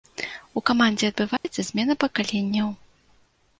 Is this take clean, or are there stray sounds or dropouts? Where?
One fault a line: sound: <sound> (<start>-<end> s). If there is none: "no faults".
sound: dropout (1.4-1.4 s)